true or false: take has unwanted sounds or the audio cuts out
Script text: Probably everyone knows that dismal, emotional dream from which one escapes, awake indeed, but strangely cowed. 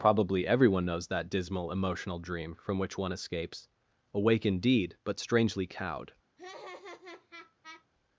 true